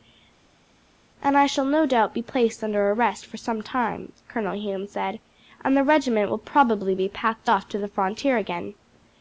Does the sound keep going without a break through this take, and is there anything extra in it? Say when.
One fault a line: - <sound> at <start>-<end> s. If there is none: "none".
none